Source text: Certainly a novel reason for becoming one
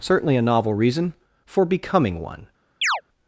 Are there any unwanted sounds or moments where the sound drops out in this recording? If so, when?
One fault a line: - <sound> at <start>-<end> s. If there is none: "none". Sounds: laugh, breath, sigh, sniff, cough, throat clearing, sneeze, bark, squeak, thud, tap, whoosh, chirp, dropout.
- chirp at 2.8-3.0 s